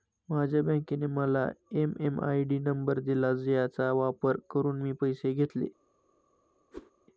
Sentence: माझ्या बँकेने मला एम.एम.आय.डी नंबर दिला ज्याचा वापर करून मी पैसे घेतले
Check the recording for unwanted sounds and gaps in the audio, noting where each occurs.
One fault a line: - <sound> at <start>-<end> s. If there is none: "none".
- whoosh at 6.7-6.9 s